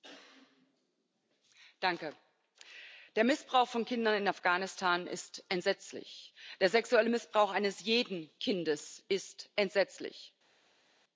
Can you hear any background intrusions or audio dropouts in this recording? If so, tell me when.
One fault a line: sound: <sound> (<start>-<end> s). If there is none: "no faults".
no faults